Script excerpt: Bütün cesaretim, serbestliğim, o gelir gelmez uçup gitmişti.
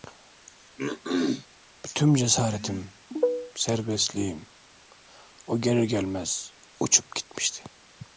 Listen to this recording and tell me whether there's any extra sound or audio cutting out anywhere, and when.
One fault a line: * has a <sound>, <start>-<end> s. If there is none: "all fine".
* has a throat clearing, 0.8-1.5 s